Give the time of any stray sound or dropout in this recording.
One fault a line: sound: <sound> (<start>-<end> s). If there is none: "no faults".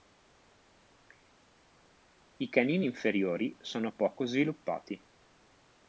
no faults